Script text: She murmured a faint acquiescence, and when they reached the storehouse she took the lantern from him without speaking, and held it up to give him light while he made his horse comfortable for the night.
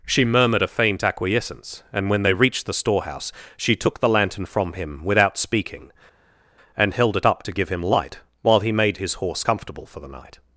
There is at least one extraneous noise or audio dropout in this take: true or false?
false